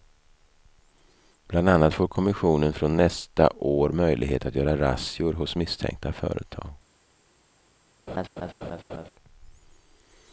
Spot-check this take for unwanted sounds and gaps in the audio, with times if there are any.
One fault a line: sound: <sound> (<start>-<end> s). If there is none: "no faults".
sound: laugh (8.1-9.1 s)